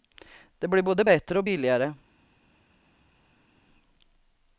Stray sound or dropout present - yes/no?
no